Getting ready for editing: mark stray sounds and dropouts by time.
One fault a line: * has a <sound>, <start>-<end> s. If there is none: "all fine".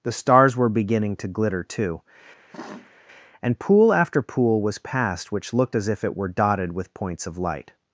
* has a sniff, 2.5-3.0 s